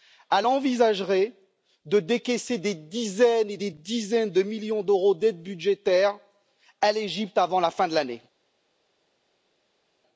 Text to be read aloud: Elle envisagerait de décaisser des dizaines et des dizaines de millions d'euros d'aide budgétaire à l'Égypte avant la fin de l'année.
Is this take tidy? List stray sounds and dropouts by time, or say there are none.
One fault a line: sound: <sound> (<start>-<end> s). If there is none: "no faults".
no faults